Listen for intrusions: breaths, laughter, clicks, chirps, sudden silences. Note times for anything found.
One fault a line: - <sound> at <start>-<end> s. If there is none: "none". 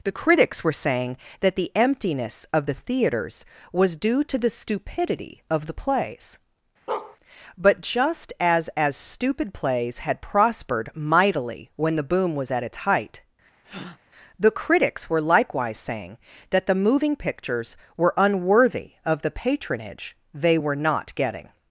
- bark at 6.9-7.2 s
- breath at 13.6-14.0 s